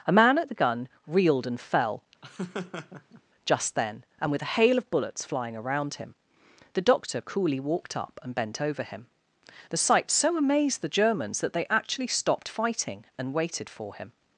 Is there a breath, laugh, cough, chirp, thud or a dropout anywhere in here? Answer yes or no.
yes